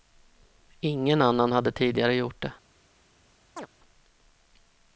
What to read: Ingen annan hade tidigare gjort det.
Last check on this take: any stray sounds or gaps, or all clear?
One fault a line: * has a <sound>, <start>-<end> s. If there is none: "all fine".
* has a chirp, 3.6-3.7 s